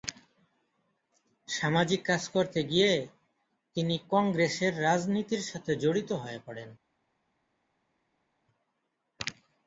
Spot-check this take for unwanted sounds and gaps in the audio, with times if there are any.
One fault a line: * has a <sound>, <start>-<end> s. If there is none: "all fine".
all fine